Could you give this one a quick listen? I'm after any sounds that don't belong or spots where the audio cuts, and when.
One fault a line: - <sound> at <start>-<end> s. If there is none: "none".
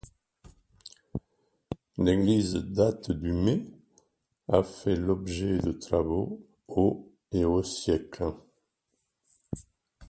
none